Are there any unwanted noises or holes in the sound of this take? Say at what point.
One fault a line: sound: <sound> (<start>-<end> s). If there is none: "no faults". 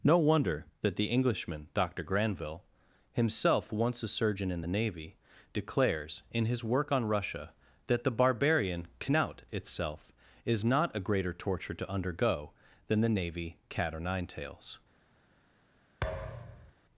sound: thud (16.0-16.7 s)